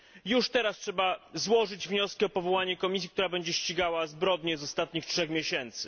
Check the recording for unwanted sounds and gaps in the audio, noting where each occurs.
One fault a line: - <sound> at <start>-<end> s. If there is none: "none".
none